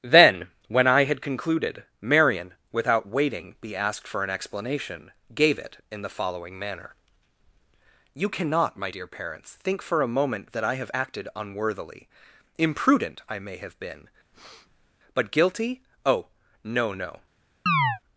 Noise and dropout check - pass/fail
fail